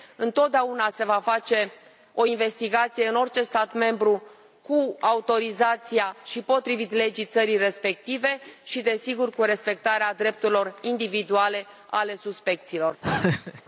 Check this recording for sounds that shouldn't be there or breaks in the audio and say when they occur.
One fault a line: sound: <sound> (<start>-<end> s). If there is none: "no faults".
sound: laugh (13.0-13.6 s)